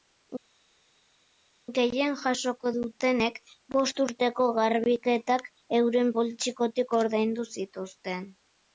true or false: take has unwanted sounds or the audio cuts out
false